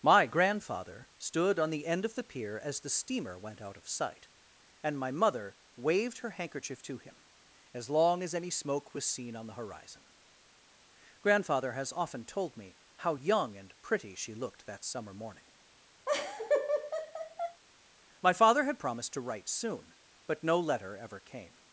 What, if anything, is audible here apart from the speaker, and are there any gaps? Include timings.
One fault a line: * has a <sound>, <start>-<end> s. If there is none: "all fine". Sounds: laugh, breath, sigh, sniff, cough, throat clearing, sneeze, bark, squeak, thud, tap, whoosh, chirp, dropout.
* has a laugh, 16.1-17.6 s